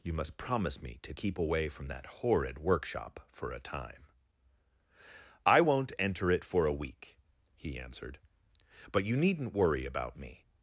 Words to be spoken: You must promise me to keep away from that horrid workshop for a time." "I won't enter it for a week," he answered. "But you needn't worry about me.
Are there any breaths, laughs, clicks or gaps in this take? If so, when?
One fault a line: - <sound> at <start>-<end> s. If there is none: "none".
none